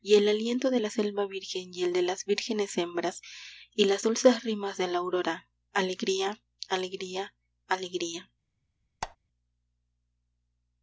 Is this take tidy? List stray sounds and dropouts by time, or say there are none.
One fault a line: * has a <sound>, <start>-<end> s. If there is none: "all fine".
* has a squeak, 9.0-9.2 s